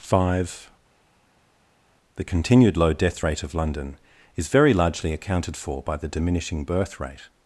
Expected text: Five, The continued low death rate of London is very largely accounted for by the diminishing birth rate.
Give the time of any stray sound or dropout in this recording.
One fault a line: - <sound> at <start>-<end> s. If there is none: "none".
none